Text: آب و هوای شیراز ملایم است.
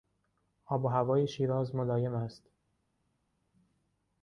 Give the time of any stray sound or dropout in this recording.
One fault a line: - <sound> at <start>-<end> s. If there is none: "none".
none